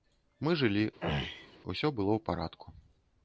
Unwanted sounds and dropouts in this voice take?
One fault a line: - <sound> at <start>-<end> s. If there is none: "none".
- throat clearing at 1.0-1.6 s